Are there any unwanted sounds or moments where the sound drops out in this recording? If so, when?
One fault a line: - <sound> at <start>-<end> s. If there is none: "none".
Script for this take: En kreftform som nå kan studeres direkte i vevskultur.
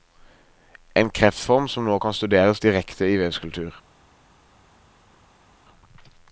none